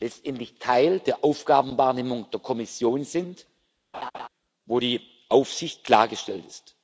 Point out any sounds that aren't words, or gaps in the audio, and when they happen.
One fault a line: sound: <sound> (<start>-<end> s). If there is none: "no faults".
sound: laugh (3.9-4.3 s)